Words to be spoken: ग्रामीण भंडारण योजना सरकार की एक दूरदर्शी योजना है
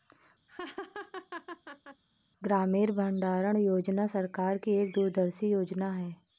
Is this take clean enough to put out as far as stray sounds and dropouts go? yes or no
no